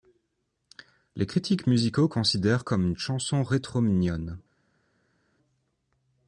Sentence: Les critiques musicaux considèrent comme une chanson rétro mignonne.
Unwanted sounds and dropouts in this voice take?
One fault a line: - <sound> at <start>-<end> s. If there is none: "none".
none